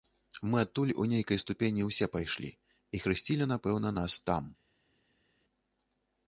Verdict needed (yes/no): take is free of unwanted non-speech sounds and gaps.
yes